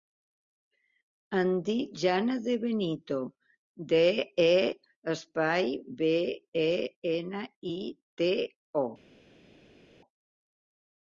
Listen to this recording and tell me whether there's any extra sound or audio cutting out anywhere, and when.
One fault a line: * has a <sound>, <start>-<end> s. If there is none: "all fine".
all fine